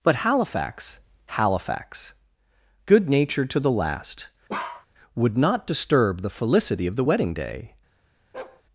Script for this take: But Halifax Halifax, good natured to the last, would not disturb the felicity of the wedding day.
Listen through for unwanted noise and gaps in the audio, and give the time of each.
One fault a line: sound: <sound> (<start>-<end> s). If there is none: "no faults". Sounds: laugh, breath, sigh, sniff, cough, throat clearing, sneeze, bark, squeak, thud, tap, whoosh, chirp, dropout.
sound: bark (4.5-4.9 s)
sound: bark (8.3-8.6 s)